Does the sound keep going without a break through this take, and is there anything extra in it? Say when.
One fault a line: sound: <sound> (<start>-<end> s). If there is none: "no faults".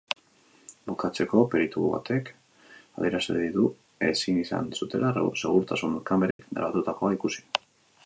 sound: dropout (6.3-6.4 s)